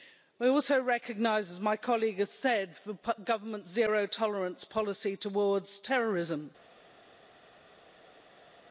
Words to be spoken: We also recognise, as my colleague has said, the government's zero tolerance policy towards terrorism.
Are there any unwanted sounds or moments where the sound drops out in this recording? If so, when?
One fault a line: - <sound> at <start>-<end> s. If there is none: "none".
none